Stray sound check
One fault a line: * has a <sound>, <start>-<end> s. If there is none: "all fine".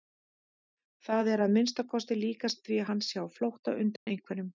* has a dropout, 4.0-4.1 s